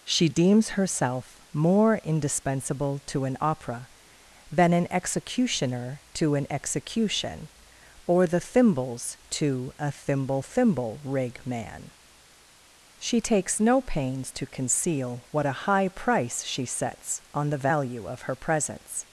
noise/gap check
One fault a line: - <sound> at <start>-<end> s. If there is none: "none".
none